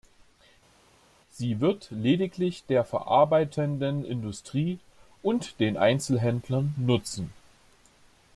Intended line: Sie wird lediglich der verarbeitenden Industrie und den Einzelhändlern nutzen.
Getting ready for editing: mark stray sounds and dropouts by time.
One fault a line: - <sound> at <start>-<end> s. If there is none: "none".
none